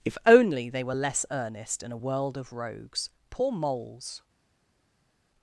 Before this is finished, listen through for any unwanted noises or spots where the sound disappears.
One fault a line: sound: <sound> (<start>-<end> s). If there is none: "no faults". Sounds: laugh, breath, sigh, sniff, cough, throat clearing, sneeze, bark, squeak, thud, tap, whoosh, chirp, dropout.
no faults